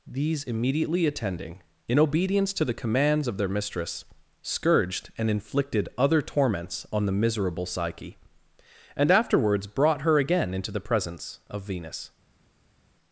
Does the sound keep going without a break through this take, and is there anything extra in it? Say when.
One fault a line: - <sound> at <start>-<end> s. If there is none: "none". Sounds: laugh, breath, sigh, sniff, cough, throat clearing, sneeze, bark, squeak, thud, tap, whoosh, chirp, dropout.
none